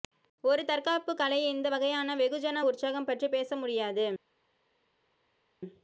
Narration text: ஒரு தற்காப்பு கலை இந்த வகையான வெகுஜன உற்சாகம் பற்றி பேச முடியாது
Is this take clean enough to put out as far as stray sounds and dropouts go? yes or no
yes